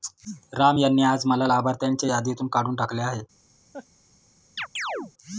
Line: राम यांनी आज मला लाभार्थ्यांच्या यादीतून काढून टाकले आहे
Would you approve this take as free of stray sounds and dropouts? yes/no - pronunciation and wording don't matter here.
no